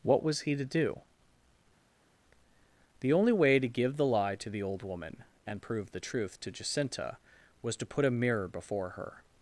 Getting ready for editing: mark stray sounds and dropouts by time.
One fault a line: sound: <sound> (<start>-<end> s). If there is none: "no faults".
no faults